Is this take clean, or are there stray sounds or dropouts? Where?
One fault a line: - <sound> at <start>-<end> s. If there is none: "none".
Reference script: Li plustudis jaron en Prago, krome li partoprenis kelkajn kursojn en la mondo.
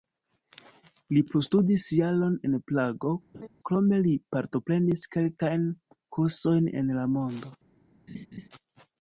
- laugh at 3.3-3.5 s
- laugh at 8.1-8.5 s